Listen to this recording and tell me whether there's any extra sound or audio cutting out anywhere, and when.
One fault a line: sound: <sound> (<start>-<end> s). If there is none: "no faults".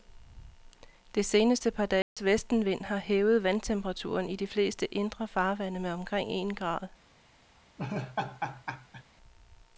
sound: dropout (2.0-2.2 s)
sound: laugh (7.8-9.0 s)